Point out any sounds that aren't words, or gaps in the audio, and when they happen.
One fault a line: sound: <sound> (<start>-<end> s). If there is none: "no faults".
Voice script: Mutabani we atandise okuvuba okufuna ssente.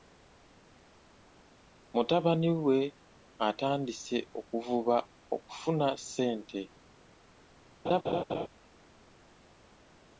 sound: laugh (7.8-8.5 s)